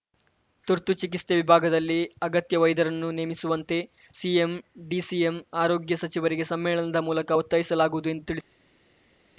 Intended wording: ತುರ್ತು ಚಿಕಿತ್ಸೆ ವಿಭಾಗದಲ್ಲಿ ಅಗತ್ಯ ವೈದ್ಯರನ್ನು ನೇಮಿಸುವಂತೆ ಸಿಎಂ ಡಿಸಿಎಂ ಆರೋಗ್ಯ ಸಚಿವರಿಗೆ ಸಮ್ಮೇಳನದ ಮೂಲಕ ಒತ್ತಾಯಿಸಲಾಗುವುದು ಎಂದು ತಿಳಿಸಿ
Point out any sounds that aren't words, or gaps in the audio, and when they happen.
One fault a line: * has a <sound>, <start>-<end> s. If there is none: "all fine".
all fine